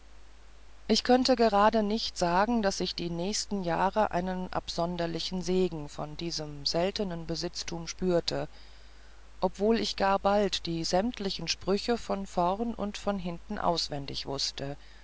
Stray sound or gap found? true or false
false